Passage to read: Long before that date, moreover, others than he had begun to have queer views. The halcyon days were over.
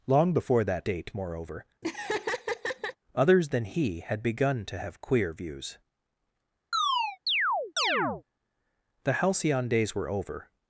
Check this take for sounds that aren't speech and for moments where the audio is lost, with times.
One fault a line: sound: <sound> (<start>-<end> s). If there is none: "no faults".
sound: laugh (1.8-3.0 s)
sound: chirp (6.7-8.2 s)